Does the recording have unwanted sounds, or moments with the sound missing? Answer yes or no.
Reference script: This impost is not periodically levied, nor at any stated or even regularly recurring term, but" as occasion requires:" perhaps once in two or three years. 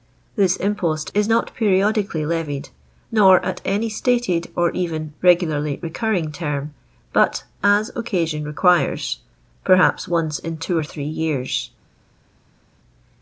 no